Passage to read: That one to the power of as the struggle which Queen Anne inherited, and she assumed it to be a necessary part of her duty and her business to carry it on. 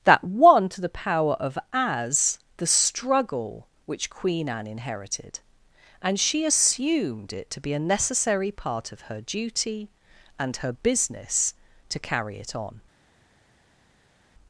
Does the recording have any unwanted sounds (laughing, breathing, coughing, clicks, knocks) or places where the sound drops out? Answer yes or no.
no